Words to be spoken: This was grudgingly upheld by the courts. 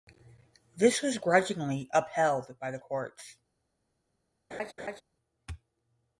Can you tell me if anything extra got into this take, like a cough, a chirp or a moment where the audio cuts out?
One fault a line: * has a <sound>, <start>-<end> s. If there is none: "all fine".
* has a laugh, 4.5-5.0 s